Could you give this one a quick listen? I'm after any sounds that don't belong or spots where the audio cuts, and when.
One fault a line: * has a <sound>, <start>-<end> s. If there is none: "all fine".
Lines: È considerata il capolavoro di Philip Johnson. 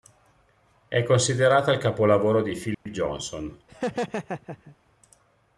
* has a dropout, 2.7-2.9 s
* has a laugh, 3.7-4.8 s